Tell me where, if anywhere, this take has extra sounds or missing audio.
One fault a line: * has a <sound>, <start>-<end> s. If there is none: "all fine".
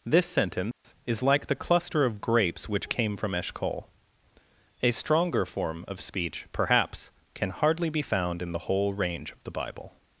* has a dropout, 0.7-0.8 s